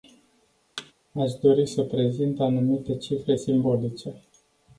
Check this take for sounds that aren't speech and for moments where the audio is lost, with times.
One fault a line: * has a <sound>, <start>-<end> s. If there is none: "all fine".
* has a thud, 0.8-0.9 s